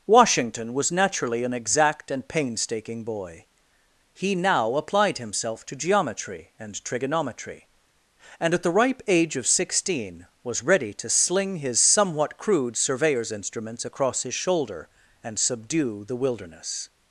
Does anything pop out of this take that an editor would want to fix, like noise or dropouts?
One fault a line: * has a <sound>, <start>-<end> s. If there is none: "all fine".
all fine